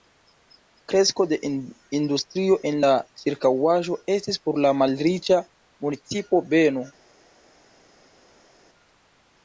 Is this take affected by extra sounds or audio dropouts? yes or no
no